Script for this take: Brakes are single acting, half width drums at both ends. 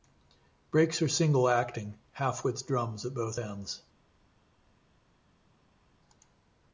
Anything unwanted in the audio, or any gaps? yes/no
no